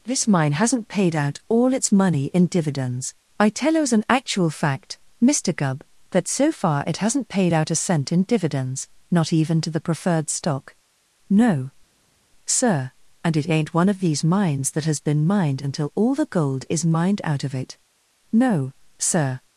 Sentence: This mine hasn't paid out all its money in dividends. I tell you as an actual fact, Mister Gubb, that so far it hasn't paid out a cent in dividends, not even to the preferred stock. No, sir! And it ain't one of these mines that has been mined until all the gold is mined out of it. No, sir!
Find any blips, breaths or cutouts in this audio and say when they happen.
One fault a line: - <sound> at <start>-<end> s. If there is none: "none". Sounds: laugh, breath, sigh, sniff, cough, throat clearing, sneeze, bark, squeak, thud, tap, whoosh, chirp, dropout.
none